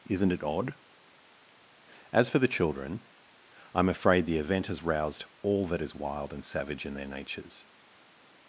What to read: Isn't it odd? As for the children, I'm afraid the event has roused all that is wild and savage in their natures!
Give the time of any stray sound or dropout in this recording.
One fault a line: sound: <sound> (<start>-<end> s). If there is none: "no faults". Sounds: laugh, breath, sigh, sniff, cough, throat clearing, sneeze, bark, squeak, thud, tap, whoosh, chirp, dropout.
no faults